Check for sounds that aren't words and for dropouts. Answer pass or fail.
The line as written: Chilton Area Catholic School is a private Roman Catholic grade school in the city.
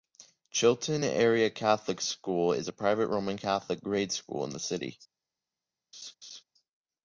fail